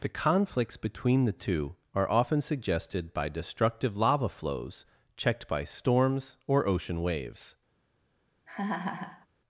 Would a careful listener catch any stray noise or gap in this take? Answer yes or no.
yes